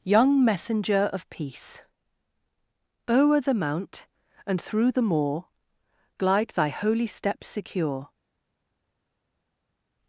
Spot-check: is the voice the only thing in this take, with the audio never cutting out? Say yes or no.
yes